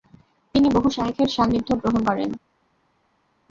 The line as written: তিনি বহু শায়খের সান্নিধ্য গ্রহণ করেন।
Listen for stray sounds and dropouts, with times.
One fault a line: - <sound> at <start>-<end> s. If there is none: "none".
none